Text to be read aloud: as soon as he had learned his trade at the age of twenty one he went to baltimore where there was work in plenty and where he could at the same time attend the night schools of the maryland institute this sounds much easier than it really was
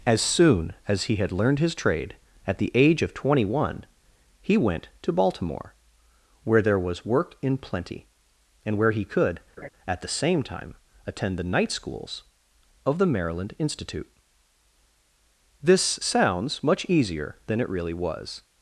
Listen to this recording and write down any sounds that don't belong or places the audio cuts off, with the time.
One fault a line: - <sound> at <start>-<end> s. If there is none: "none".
- laugh at 9.6-9.7 s